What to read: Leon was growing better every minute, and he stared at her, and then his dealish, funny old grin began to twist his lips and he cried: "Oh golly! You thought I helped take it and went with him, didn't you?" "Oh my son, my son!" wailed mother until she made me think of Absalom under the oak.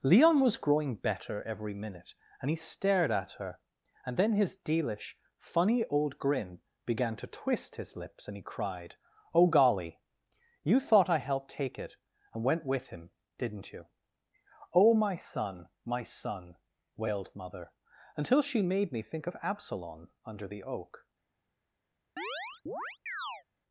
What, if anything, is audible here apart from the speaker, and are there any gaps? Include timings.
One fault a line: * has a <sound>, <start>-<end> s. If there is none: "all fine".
* has a chirp, 22.2-23.4 s